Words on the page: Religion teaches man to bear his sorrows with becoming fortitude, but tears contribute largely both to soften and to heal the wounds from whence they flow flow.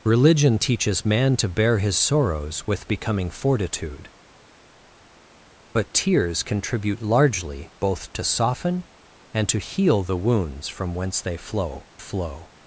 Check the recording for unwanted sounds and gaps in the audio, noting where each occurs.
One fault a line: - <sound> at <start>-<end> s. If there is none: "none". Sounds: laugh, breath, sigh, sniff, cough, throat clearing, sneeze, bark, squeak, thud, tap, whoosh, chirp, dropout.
none